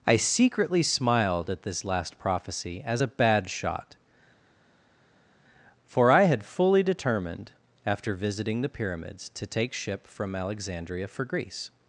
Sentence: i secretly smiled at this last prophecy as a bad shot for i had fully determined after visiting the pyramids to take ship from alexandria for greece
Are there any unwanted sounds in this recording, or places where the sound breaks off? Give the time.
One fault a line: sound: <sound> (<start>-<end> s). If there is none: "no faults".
no faults